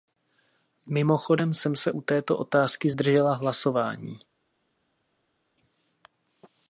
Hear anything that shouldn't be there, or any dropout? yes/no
no